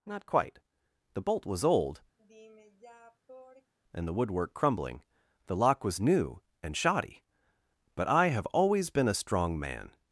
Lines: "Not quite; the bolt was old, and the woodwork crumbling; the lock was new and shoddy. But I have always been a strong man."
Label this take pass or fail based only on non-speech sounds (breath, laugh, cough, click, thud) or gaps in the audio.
fail